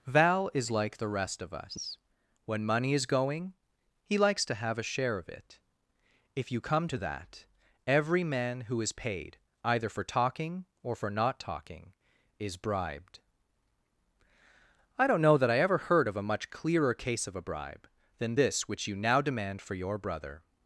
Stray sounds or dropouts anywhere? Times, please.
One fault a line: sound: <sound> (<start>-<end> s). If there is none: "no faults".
no faults